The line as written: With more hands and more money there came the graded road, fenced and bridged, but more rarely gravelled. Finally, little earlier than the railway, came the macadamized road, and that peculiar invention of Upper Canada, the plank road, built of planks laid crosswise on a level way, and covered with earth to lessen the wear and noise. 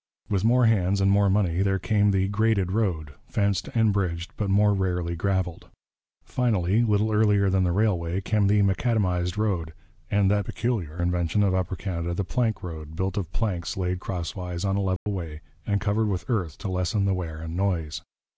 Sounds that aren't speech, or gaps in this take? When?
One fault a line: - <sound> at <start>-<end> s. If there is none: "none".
- dropout at 15.0-15.1 s